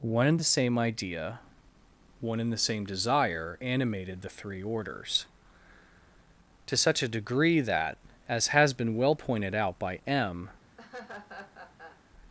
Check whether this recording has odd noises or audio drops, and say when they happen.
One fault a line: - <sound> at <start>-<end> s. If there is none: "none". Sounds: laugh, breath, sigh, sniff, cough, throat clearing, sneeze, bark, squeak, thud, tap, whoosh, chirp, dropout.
- laugh at 10.8-12.0 s